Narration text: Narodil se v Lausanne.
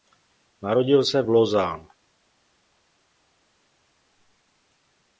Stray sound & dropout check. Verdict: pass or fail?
pass